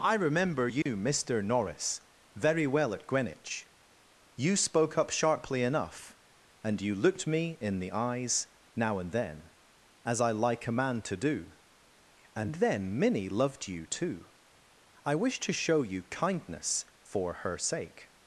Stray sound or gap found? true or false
true